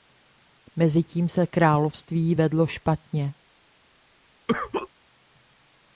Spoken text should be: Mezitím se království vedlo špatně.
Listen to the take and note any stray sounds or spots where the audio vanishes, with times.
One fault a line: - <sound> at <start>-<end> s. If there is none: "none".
- cough at 4.5-4.9 s